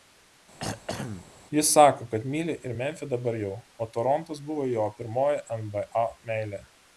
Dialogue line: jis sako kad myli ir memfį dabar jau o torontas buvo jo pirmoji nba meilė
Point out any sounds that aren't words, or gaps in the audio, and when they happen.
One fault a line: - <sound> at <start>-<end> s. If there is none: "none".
- throat clearing at 0.6-1.3 s